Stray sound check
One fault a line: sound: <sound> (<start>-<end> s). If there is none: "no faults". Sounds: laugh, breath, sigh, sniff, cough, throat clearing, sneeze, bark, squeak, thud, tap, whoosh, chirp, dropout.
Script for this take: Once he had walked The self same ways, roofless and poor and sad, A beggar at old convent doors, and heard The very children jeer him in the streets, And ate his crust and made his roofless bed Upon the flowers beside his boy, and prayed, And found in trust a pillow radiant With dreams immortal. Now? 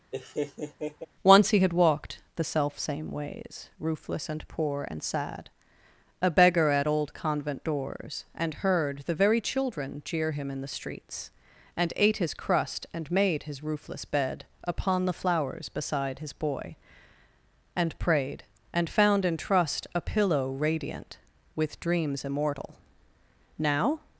sound: laugh (0.1-1.1 s)